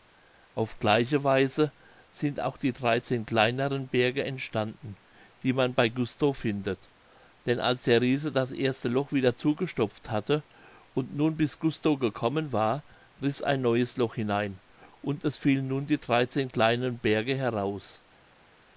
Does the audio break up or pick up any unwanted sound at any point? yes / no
no